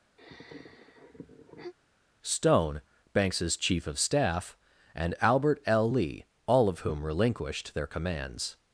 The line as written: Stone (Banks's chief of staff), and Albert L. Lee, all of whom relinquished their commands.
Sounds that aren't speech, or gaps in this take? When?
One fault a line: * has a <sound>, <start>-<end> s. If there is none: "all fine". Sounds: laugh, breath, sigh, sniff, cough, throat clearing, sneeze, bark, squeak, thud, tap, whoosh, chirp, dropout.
* has a sigh, 0.2-1.7 s